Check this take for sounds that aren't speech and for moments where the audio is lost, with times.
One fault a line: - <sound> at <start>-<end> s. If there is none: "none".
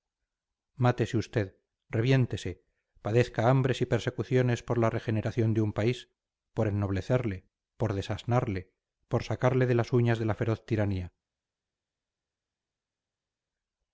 none